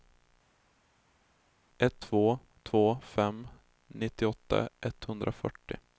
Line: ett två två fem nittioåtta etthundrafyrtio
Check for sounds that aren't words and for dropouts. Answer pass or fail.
pass